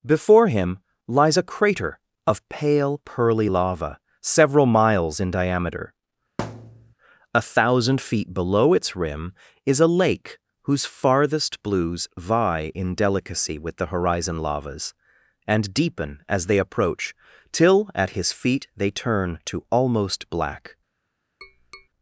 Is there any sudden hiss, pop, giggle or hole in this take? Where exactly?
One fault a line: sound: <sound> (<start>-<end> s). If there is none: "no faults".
sound: thud (6.4-6.9 s)
sound: tap (21.4-21.9 s)